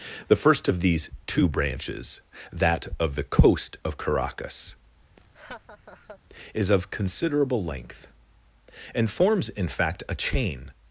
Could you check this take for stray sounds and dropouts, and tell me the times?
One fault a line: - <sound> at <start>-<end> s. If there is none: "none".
- laugh at 5.2-6.2 s